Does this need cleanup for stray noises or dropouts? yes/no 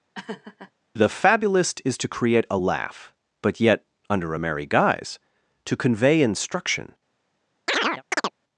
yes